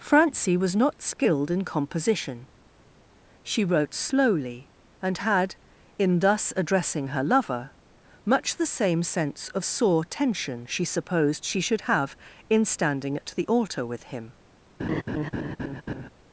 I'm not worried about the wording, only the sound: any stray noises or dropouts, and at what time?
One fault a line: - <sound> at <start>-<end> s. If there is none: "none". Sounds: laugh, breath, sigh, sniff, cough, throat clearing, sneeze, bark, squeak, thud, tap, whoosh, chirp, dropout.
- laugh at 14.8-16.1 s